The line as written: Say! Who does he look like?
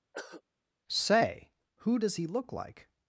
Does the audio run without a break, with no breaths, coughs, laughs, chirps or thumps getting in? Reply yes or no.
no